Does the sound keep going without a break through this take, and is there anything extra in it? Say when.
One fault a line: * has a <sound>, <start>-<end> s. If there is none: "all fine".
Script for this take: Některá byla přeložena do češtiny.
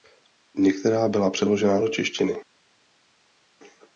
all fine